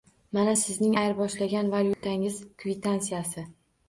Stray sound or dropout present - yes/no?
yes